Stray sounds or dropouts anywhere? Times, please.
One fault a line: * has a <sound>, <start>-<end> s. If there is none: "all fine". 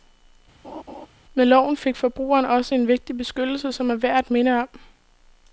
* has a laugh, 0.6-1.1 s